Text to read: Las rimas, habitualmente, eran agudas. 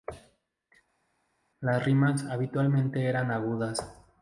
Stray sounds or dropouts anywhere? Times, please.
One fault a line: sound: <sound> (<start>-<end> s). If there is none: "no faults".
no faults